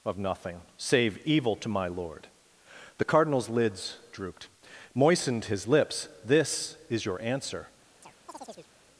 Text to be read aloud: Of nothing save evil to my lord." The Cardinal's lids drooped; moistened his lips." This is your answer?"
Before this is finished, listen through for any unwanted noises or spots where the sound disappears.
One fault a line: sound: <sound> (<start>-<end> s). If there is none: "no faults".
sound: chirp (8.0-8.7 s)